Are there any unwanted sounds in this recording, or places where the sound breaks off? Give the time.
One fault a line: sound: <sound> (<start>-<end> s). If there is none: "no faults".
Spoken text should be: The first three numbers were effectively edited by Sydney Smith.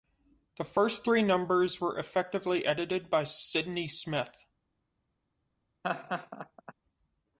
sound: laugh (5.8-6.7 s)